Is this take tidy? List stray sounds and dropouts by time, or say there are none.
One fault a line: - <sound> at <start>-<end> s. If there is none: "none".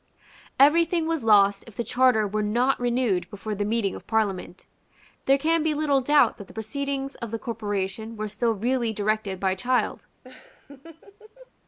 - laugh at 10.2-11.5 s